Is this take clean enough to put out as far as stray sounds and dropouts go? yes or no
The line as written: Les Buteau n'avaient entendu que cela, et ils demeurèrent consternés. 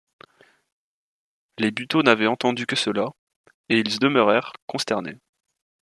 yes